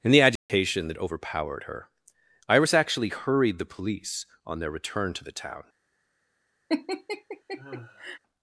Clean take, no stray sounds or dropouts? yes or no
no